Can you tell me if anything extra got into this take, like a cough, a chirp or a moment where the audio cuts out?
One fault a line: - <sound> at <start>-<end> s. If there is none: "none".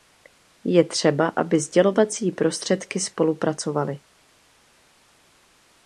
none